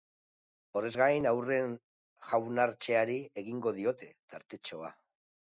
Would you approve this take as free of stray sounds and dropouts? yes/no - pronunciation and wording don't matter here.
yes